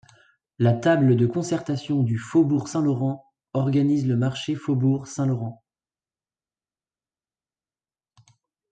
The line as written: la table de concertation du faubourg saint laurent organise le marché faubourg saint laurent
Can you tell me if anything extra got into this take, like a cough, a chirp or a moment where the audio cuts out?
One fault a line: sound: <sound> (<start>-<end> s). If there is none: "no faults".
no faults